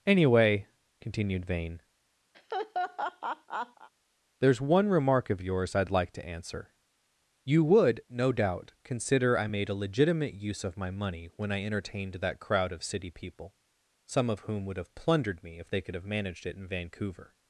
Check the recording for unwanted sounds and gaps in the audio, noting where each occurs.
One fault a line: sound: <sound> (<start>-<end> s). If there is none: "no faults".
sound: laugh (2.3-3.9 s)